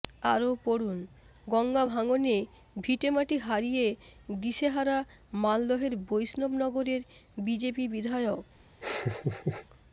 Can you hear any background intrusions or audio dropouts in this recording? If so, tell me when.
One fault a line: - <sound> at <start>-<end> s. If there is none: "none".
- laugh at 8.8-9.7 s